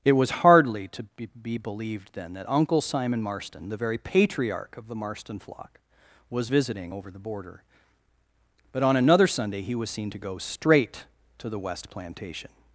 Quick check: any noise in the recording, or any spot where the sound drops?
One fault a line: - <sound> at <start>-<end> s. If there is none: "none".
none